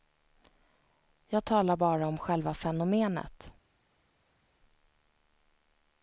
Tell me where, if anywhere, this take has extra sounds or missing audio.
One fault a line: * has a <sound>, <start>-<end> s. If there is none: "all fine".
all fine